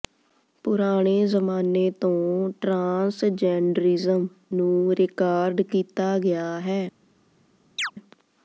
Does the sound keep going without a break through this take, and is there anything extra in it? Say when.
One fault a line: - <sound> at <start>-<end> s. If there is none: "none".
- chirp at 7.8-7.9 s